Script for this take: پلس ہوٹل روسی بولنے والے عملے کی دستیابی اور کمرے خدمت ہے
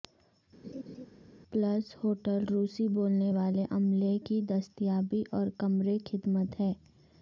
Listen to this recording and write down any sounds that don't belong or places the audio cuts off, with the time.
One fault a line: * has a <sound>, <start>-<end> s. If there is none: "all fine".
* has a laugh, 0.6-1.1 s